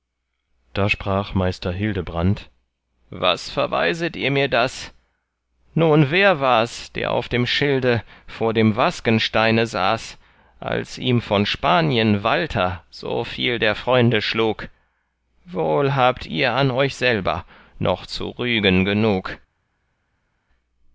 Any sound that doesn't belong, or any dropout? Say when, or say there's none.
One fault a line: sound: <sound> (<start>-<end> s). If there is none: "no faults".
no faults